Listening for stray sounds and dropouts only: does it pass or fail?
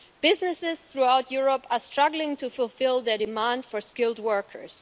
pass